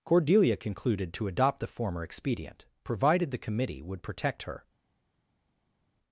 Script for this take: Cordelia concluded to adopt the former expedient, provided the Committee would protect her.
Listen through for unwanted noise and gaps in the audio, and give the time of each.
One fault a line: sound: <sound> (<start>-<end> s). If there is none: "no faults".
no faults